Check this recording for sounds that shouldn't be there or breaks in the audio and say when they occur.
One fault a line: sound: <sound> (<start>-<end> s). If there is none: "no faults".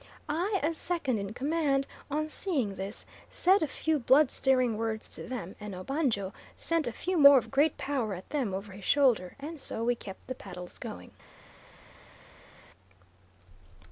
no faults